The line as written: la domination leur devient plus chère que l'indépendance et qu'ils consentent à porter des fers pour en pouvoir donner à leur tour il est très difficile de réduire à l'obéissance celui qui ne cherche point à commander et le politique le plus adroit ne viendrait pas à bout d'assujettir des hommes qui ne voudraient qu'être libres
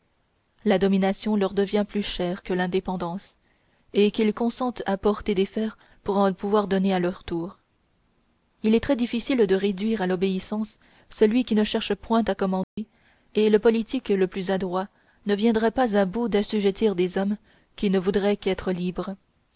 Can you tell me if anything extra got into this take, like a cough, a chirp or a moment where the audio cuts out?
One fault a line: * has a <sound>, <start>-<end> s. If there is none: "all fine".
* has a dropout, 12.6-12.8 s